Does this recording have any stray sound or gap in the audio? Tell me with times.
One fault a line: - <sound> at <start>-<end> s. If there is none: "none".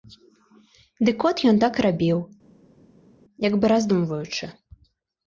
none